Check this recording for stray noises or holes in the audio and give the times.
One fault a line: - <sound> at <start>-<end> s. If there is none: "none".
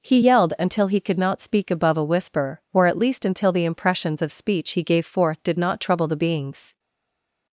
none